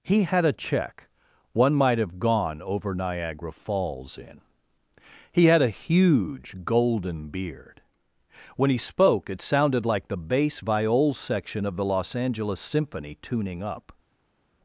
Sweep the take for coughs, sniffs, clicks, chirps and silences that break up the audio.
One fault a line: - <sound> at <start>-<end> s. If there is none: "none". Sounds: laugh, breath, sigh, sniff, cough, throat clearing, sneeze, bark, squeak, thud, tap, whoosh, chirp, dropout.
none